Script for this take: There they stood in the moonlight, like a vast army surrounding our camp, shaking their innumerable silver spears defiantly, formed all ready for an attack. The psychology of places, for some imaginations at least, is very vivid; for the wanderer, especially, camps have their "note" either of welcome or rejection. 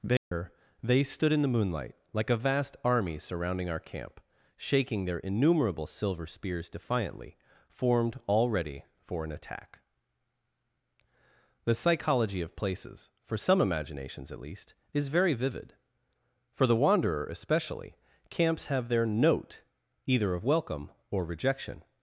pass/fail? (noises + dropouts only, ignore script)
fail